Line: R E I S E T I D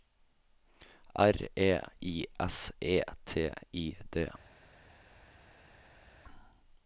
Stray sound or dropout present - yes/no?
no